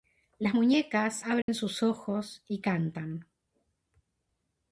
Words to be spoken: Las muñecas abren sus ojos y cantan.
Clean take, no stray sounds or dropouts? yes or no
no